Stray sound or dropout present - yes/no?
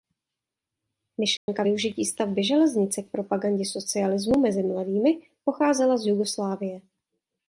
yes